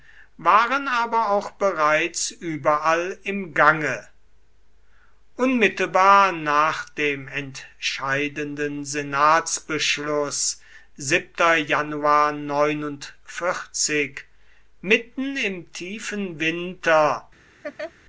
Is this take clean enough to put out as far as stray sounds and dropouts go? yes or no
no